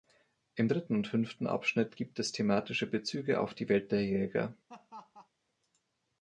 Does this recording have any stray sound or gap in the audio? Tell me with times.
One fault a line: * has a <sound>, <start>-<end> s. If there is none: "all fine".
* has a laugh, 4.7-5.3 s